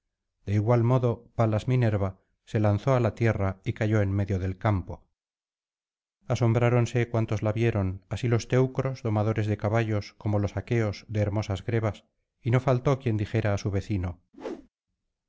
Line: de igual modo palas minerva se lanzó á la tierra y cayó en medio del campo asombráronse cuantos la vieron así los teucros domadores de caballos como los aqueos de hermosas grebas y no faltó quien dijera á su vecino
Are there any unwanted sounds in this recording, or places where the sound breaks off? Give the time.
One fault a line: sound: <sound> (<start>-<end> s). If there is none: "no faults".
sound: whoosh (14.3-14.7 s)